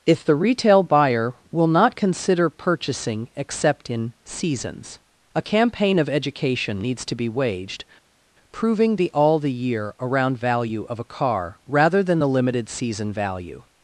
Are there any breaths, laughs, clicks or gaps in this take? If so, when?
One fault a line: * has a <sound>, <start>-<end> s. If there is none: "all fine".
all fine